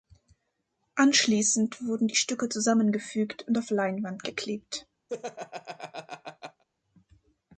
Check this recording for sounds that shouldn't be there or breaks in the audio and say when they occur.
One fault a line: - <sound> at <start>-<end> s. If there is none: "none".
- laugh at 5.1-6.6 s